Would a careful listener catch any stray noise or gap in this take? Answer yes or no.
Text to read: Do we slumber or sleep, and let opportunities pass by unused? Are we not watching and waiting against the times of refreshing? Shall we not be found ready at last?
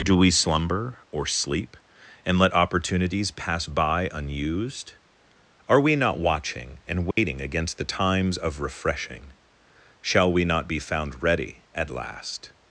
yes